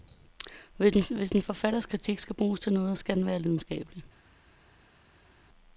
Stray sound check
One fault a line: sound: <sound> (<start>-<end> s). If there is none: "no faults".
no faults